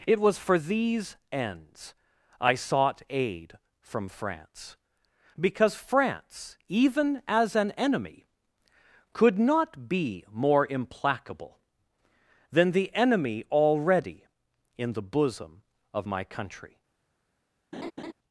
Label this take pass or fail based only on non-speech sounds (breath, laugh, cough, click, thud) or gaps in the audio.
fail